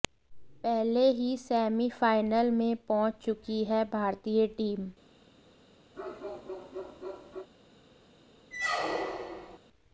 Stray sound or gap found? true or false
true